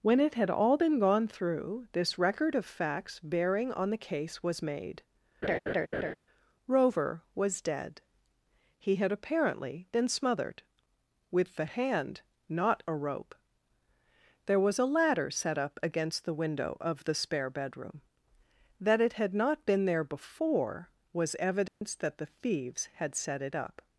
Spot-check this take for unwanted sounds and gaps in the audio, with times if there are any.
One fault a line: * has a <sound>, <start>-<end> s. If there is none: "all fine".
* has a laugh, 5.4-6.1 s
* has a dropout, 21.7-21.8 s